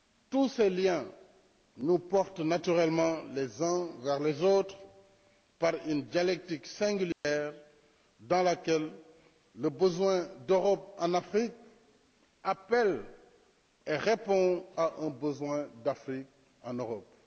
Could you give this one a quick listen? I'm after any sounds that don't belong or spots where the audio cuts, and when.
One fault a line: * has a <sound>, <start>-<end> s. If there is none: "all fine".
* has a dropout, 7.1-7.2 s